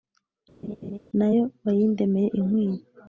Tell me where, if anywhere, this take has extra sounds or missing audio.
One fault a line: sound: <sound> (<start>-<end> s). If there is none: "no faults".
sound: laugh (0.6-1.0 s)